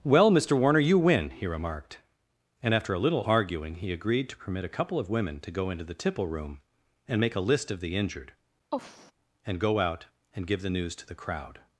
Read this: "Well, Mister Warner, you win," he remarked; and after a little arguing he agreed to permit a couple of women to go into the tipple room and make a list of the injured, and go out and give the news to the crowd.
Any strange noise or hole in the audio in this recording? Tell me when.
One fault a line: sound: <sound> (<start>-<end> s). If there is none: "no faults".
sound: sigh (8.7-9.1 s)